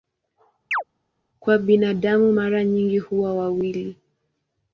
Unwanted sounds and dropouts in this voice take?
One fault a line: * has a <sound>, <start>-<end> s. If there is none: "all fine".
* has a chirp, 0.7-0.8 s